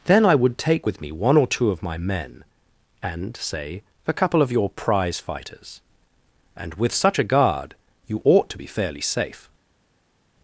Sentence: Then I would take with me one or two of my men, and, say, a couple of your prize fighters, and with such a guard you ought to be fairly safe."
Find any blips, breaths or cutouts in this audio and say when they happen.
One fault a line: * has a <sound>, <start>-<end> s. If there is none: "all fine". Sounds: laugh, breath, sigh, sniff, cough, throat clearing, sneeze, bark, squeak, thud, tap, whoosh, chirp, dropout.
all fine